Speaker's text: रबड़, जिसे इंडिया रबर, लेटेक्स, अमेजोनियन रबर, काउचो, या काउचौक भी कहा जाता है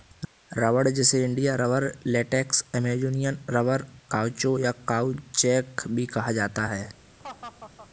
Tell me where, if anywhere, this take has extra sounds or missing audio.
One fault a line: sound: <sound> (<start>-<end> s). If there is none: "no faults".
sound: laugh (7.2-7.9 s)